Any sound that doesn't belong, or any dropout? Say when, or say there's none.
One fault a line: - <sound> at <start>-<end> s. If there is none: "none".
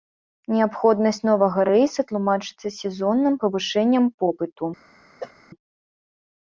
- cough at 5.2-5.3 s